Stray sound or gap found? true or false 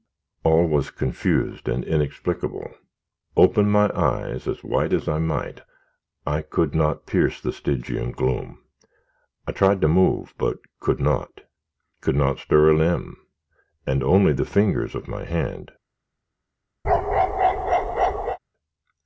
true